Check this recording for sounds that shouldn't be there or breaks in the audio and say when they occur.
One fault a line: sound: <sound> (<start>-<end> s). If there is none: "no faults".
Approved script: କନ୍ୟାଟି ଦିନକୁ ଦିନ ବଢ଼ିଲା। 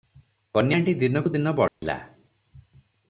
sound: dropout (1.7-1.8 s)